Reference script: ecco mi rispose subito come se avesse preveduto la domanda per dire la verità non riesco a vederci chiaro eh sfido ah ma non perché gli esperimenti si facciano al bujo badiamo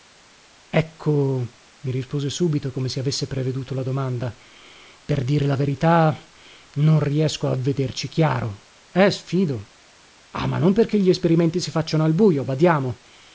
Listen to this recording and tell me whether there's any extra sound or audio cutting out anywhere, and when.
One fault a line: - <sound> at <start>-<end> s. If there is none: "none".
none